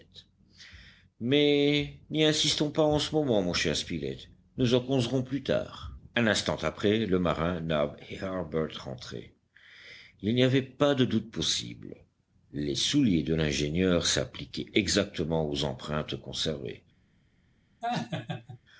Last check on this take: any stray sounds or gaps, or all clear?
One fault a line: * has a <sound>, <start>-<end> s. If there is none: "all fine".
* has a laugh, 17.8-18.6 s